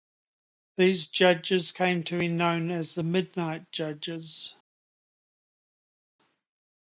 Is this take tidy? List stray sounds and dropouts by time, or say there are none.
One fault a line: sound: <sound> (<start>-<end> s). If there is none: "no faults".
no faults